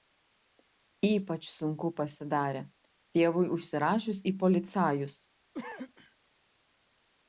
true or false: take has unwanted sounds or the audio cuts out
true